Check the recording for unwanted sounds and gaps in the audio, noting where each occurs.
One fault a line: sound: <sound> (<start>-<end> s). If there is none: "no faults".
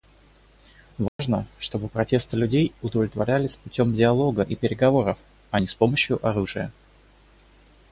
sound: dropout (1.1-1.2 s)